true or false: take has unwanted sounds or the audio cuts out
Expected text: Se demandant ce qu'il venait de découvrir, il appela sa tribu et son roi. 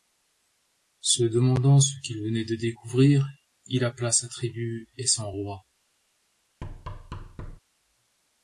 true